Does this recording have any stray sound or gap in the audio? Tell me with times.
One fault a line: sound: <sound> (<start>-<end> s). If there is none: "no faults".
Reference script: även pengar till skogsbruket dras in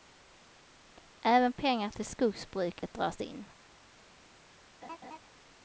sound: dropout (2.8-2.8 s)
sound: laugh (4.8-5.2 s)